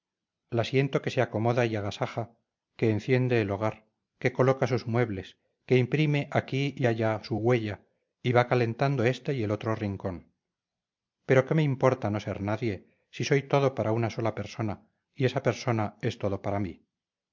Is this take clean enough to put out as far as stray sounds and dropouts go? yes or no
yes